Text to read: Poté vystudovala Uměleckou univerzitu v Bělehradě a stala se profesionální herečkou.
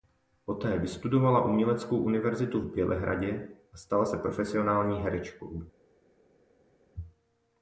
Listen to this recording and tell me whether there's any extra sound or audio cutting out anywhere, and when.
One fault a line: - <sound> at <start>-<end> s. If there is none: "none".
none